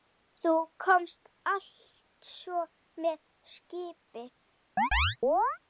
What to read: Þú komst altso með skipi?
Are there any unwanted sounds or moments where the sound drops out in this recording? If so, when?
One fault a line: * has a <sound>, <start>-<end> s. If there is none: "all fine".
* has a chirp, 4.8-5.6 s